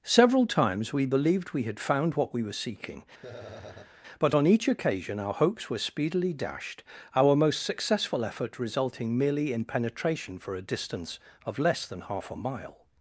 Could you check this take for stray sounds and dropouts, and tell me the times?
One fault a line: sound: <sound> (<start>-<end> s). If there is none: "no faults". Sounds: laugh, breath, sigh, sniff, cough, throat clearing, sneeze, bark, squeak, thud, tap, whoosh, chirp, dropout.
sound: laugh (3.2-3.9 s)